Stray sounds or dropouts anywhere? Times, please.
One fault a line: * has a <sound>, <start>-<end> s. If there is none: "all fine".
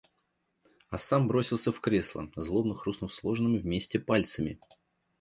all fine